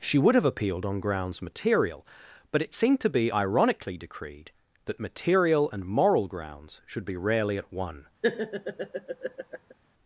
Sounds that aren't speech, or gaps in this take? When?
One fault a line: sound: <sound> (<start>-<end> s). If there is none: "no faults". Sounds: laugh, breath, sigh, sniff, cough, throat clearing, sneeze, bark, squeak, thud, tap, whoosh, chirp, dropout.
sound: laugh (8.2-9.7 s)